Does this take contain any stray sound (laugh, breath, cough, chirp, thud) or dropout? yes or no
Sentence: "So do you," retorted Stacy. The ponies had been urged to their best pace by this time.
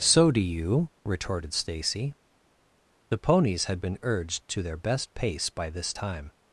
no